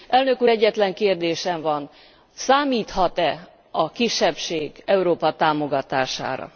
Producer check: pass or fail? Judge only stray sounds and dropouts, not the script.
pass